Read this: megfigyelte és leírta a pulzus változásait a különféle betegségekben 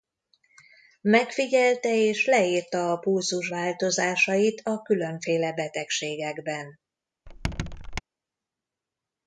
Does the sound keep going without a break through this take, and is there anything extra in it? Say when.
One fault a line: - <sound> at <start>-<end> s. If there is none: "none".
- squeak at 7.3-8.0 s